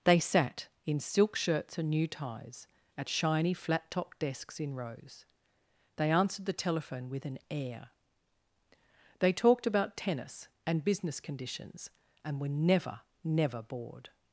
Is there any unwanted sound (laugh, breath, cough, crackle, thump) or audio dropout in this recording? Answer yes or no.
no